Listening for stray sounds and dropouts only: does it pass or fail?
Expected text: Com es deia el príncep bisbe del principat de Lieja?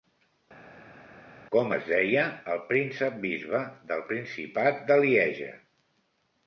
pass